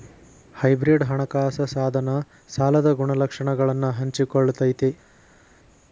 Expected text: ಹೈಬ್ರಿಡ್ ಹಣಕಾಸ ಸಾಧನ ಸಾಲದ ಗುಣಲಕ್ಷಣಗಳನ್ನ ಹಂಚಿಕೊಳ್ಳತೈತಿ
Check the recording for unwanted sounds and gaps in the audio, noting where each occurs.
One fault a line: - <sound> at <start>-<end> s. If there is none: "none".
none